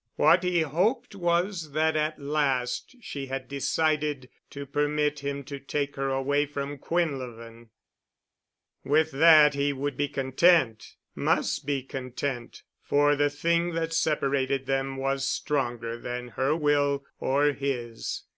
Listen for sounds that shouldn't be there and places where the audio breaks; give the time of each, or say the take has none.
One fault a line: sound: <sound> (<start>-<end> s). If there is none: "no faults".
no faults